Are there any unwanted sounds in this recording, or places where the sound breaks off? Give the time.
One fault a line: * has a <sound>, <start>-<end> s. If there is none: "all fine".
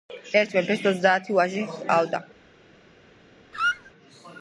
* has a squeak, 3.5-3.9 s